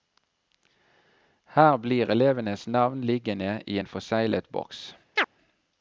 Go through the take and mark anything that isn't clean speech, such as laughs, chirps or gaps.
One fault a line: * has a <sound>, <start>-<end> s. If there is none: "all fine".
* has a chirp, 5.2-5.3 s